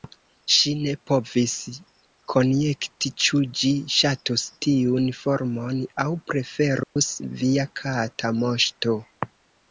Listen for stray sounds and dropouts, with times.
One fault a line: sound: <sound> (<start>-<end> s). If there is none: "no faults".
sound: dropout (6.8-7.0 s)